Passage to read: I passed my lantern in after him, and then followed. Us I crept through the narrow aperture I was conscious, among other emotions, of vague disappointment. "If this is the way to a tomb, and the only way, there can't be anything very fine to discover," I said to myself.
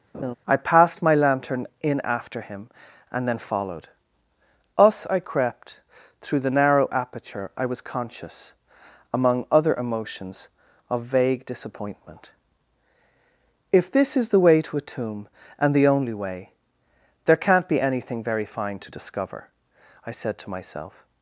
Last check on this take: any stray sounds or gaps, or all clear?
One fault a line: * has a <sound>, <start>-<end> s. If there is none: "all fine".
* has a laugh, 0.1-0.3 s